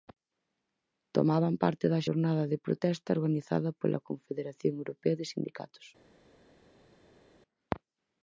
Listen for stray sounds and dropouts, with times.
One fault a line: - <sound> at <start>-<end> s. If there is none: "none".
none